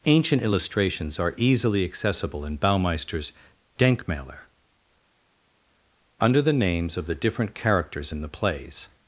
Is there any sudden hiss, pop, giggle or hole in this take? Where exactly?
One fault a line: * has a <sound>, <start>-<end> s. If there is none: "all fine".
all fine